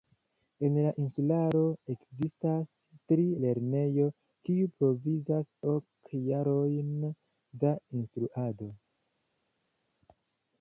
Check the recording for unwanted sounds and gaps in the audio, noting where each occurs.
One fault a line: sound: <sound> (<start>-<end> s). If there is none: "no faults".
no faults